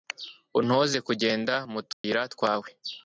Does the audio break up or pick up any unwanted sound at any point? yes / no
yes